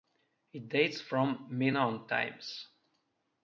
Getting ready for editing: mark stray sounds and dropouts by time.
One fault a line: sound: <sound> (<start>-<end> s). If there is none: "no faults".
no faults